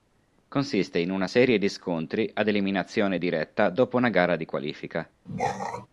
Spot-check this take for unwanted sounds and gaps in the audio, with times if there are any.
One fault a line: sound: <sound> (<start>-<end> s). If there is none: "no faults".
sound: throat clearing (5.3-5.9 s)